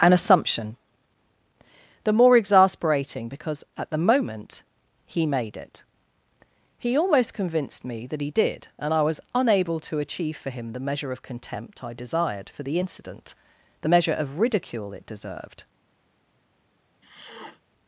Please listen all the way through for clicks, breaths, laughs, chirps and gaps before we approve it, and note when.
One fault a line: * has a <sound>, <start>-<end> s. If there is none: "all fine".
* has a sniff, 17.0-17.6 s